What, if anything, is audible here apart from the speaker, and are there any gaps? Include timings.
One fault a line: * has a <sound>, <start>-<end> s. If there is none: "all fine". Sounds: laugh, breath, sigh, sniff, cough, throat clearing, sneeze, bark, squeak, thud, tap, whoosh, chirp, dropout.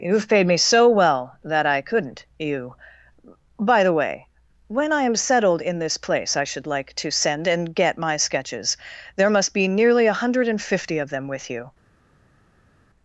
all fine